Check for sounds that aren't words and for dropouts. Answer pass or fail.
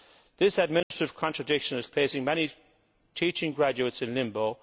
fail